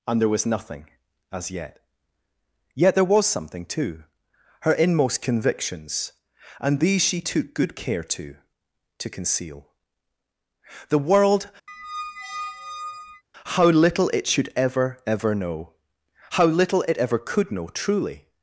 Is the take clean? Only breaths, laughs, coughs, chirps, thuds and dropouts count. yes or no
no